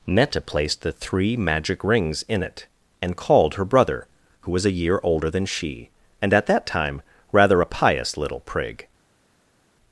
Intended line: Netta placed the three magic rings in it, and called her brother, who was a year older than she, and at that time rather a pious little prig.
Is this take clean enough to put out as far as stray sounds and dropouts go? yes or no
yes